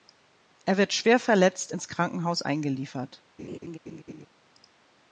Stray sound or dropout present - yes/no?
yes